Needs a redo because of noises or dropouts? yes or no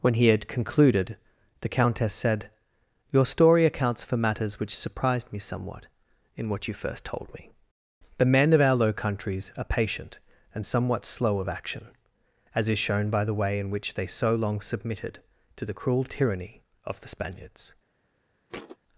yes